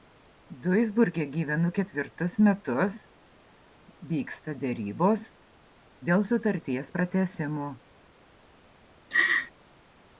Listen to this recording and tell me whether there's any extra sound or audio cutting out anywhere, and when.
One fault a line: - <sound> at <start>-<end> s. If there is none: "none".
- laugh at 9.1-9.5 s